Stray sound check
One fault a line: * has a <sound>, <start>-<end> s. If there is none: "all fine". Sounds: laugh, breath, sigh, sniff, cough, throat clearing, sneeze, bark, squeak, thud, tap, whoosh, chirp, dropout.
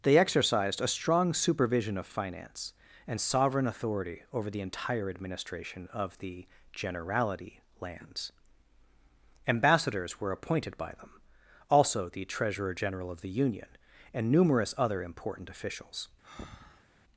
* has a breath, 16.2-16.8 s